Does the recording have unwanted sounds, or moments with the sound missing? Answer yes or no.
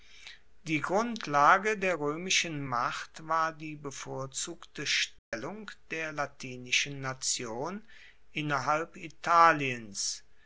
yes